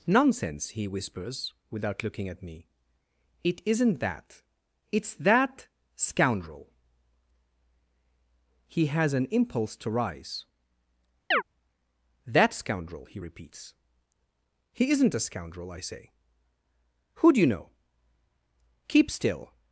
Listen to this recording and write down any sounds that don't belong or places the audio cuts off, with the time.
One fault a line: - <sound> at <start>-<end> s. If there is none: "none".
- chirp at 11.3-11.4 s